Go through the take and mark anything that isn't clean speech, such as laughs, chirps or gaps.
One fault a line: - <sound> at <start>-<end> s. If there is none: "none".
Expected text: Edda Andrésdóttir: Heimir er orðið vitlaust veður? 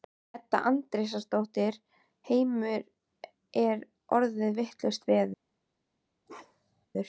- bark at 6.3-6.9 s